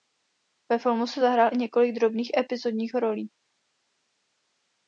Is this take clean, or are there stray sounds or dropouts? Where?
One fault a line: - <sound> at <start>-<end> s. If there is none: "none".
none